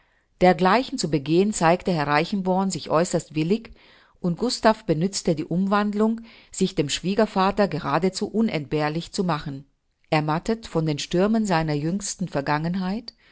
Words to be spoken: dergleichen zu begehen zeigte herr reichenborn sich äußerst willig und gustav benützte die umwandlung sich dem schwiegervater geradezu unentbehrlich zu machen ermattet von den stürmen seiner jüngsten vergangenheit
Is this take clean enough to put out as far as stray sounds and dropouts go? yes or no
yes